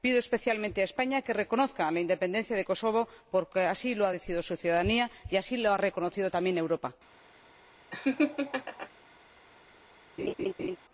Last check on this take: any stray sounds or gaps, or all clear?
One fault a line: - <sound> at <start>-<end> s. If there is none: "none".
- laugh at 7.9-8.9 s
- laugh at 10.2-10.8 s